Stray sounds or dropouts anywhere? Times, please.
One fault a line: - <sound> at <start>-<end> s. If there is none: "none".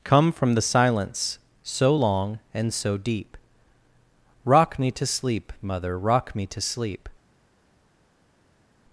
none